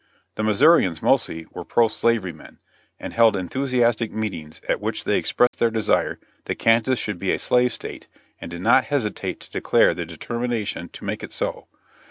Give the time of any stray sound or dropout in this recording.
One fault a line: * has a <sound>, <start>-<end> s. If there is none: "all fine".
* has a dropout, 5.5-5.5 s